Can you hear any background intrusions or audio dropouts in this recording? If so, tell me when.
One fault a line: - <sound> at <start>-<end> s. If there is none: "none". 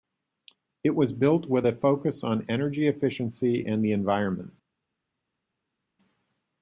none